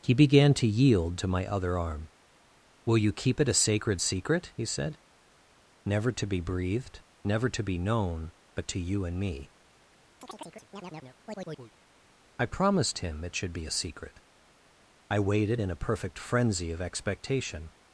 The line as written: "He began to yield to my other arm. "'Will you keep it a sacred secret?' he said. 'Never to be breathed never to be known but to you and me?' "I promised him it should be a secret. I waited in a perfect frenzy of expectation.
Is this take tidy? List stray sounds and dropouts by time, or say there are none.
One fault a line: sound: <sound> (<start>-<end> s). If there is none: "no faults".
sound: chirp (10.2-11.7 s)